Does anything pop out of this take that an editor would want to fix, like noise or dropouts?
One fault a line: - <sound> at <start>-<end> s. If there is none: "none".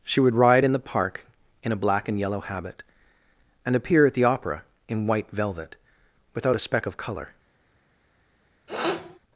- sniff at 8.7-9.2 s